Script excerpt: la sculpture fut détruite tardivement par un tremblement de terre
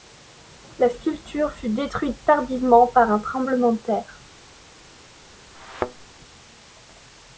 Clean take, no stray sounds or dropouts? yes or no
no